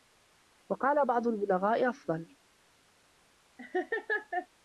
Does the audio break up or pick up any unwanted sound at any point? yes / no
yes